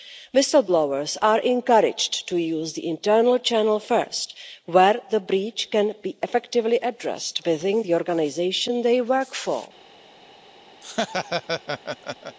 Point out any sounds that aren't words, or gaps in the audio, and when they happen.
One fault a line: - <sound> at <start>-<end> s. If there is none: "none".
- laugh at 10.8-12.4 s